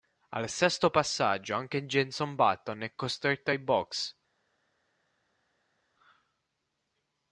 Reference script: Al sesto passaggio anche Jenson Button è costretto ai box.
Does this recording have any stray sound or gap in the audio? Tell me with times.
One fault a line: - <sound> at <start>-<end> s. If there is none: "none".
none